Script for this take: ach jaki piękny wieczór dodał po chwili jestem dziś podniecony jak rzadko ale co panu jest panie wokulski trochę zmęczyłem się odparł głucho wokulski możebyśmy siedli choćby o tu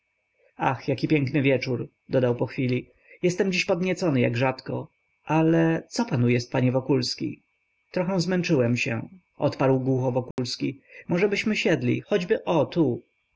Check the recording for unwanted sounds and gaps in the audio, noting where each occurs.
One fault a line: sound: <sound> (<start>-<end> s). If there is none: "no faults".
sound: dropout (10.3-10.4 s)